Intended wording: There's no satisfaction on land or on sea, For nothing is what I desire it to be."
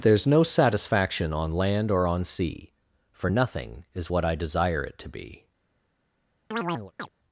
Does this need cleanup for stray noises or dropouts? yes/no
yes